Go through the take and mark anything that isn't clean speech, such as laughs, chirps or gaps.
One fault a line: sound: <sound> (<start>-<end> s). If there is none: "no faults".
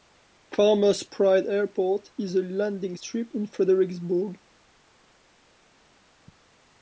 no faults